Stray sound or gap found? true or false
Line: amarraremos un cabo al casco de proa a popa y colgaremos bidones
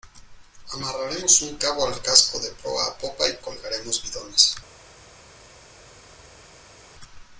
false